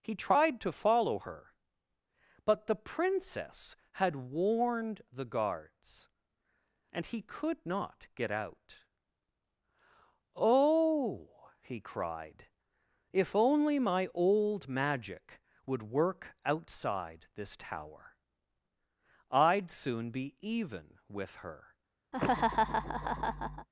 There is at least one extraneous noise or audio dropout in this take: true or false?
true